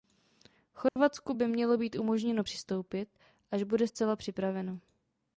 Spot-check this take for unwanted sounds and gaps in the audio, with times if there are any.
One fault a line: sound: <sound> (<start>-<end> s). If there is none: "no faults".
sound: dropout (0.9-1.0 s)